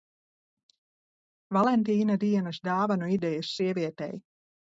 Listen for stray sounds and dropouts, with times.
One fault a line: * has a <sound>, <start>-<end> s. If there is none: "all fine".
all fine